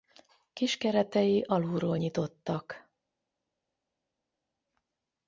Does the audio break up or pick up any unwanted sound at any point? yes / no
no